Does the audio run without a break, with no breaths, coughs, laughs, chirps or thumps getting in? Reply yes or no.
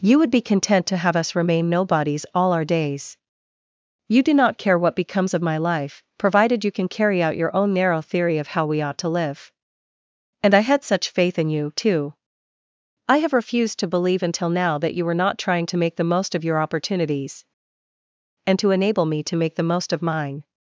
yes